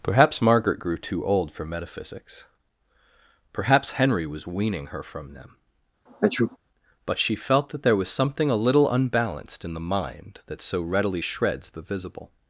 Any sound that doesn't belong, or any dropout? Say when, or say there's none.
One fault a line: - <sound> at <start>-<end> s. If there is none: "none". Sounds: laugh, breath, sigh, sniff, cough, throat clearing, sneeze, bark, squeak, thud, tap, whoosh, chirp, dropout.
- sneeze at 6.1-6.6 s